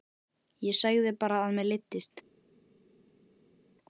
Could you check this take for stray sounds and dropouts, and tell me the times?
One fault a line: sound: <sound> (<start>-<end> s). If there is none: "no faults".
no faults